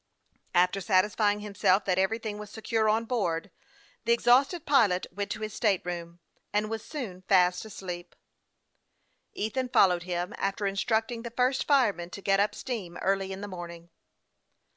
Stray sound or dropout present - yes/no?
no